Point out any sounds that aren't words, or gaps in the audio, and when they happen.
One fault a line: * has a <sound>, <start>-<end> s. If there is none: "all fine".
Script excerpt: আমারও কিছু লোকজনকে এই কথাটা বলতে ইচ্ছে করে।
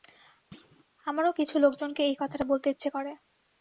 * has a thud, 0.5-0.9 s